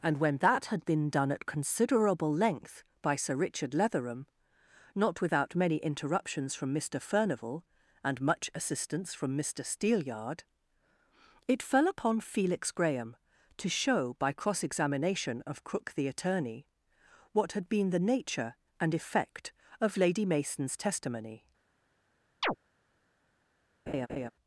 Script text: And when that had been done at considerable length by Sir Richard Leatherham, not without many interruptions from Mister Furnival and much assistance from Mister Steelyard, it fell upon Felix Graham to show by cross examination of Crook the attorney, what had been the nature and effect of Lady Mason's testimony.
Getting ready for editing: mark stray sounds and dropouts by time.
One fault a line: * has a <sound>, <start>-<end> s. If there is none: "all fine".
* has a chirp, 22.4-22.6 s
* has a laugh, 23.9-24.3 s